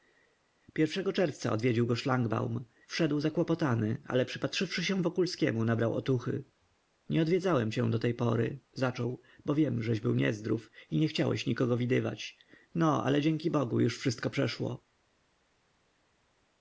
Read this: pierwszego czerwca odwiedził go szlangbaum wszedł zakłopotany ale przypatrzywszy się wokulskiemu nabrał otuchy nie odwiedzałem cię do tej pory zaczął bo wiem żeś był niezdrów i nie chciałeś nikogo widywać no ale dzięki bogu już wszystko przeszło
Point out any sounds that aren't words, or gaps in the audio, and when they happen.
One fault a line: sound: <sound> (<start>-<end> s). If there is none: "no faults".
no faults